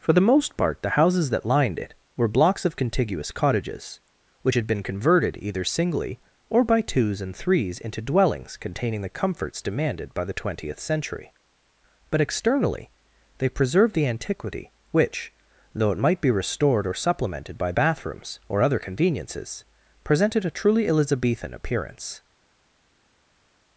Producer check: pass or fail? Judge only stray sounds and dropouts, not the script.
pass